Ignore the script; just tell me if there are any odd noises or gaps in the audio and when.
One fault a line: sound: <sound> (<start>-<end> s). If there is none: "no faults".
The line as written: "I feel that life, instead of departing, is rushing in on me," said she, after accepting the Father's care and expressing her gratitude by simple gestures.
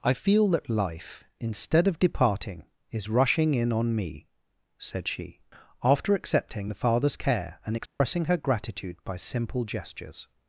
sound: dropout (7.9-8.0 s)